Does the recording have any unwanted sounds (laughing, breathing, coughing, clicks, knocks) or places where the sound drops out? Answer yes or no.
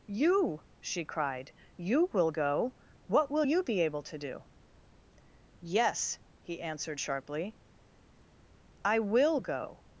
no